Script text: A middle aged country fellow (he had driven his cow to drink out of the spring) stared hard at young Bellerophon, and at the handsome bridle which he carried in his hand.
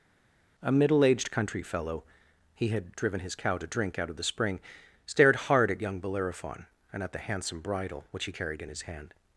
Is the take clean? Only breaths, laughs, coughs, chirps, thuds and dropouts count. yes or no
yes